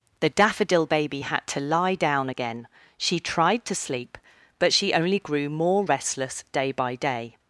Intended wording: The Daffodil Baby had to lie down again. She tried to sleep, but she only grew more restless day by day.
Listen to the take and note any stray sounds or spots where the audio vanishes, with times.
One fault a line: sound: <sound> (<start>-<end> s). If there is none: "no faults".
no faults